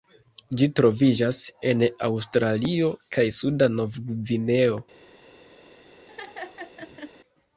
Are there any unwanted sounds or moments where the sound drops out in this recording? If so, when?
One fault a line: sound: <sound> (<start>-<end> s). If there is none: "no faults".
sound: laugh (6.1-7.1 s)